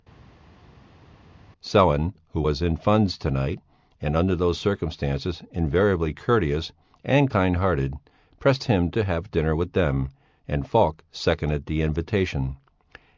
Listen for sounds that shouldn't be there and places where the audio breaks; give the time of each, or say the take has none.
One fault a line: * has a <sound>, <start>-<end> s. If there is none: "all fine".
all fine